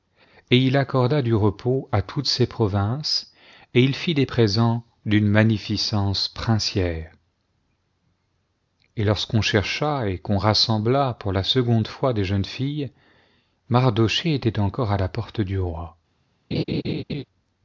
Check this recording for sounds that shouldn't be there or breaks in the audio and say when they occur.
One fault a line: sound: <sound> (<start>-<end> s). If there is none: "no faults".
sound: laugh (16.5-17.2 s)